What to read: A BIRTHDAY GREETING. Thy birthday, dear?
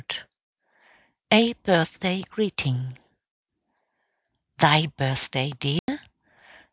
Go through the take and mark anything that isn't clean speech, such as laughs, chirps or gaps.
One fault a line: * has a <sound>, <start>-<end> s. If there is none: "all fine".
* has a dropout, 5.8-5.9 s